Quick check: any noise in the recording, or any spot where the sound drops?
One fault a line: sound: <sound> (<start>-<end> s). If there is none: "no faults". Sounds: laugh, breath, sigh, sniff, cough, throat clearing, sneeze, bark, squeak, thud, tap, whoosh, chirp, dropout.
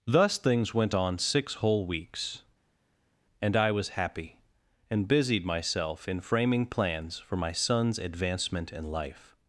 no faults